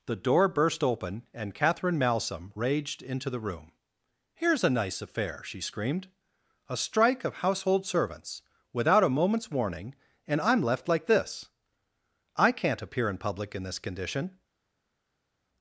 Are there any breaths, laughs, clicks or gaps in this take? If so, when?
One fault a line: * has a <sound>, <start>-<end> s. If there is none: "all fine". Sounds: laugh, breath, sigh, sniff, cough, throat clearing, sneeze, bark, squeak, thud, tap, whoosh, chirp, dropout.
all fine